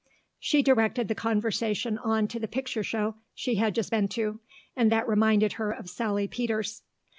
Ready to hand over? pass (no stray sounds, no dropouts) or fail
pass